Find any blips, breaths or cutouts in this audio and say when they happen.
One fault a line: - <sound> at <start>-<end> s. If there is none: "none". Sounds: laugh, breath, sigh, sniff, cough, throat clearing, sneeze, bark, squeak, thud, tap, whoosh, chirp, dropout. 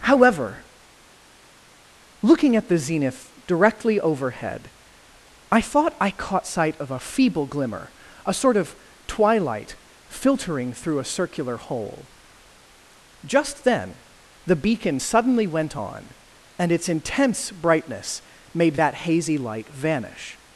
none